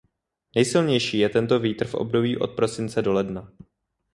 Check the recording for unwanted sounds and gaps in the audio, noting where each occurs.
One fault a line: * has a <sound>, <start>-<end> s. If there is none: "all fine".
all fine